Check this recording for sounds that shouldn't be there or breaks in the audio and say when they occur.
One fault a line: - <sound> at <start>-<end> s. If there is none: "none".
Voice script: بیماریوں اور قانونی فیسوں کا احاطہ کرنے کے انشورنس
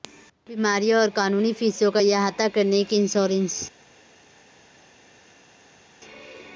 none